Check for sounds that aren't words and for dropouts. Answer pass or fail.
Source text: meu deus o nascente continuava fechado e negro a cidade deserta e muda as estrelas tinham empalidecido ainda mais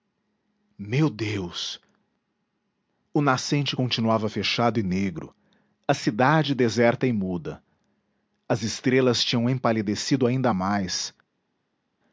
pass